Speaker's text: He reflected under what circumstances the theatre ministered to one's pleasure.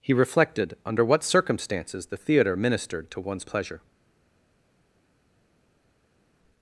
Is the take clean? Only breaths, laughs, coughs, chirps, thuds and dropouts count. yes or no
yes